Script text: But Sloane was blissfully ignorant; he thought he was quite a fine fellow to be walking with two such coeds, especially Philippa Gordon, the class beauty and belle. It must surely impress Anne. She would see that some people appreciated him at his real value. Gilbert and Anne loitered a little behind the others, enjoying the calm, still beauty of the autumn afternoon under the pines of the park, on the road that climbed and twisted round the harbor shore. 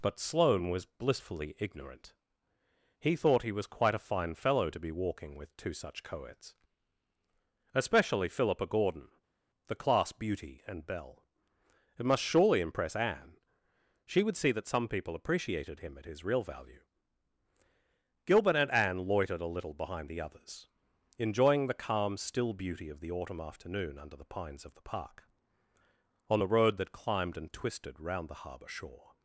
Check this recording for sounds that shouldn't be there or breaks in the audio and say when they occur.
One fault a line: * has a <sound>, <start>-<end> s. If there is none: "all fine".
all fine